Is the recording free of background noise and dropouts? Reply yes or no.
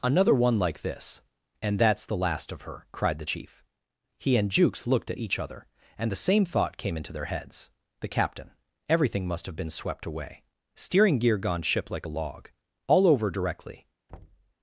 no